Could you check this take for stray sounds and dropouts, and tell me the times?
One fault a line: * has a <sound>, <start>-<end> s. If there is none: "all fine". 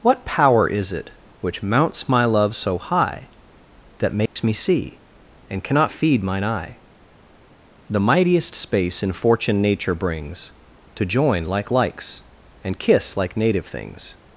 * has a dropout, 4.3-4.4 s